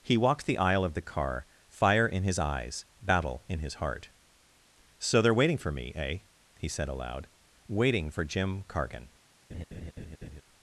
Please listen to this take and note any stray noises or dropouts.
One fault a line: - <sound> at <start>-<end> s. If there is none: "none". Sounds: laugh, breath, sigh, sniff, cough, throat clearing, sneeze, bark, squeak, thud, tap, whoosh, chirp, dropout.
- laugh at 9.5-10.4 s